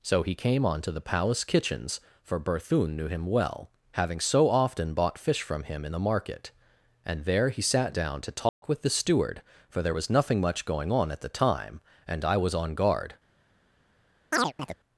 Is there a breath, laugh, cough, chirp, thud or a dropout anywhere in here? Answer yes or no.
yes